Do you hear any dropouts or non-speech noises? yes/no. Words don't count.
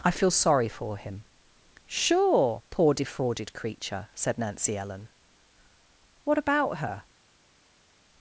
no